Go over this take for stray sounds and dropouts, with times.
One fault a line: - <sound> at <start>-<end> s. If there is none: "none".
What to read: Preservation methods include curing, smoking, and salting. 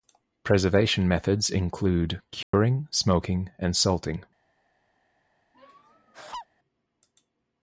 - dropout at 2.4-2.5 s
- laugh at 5.5-6.5 s